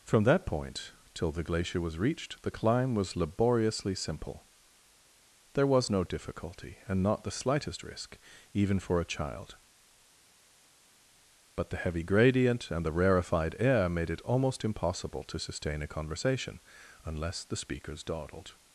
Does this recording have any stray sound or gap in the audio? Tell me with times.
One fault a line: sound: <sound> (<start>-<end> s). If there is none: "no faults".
no faults